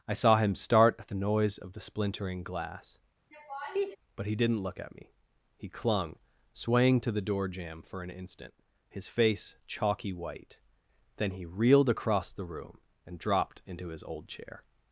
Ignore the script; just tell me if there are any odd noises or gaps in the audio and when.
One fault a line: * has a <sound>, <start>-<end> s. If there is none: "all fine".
* has a laugh, 3.3-4.0 s